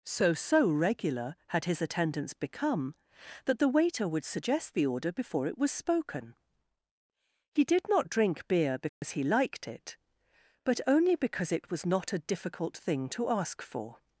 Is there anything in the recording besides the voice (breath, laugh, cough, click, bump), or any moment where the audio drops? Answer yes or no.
yes